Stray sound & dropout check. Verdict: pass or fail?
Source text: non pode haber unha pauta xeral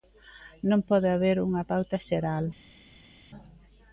pass